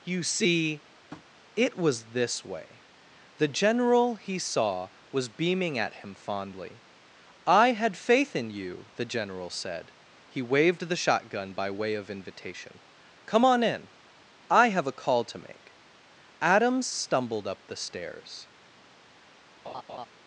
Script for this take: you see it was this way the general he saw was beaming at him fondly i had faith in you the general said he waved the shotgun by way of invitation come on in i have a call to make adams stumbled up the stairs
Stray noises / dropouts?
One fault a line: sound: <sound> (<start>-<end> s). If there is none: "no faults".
sound: tap (1.1-1.3 s)
sound: laugh (19.6-20.1 s)